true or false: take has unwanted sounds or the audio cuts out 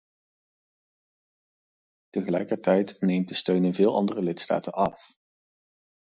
false